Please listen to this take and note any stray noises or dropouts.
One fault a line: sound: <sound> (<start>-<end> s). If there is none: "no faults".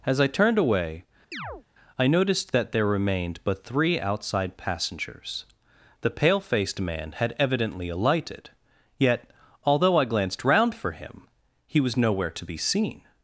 sound: chirp (1.3-1.6 s)